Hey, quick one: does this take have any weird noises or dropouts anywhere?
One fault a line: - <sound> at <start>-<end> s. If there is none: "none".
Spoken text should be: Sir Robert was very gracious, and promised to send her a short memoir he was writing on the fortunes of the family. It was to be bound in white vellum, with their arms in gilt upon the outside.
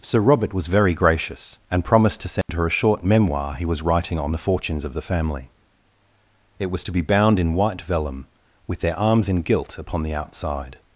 - dropout at 2.4-2.5 s